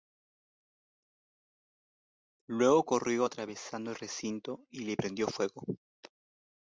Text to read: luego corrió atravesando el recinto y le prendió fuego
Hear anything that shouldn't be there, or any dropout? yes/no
no